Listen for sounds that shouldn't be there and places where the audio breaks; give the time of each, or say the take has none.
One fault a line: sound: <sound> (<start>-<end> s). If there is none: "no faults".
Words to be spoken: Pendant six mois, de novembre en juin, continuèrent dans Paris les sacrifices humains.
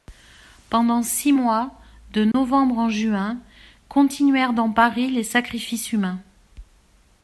sound: dropout (2.3-2.3 s)